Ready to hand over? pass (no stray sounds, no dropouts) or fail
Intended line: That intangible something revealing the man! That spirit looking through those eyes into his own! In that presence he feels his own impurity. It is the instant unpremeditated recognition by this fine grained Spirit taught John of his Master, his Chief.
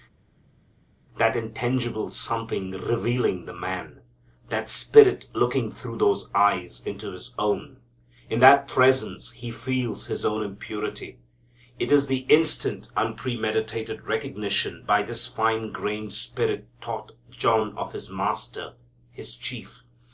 pass